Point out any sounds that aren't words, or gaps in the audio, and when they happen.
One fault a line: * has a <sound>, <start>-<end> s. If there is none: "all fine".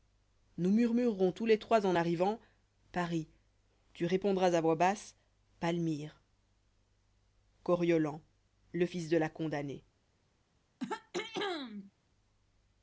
* has a throat clearing, 10.8-11.9 s